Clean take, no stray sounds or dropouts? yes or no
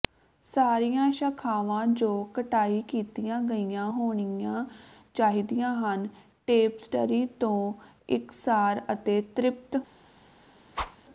no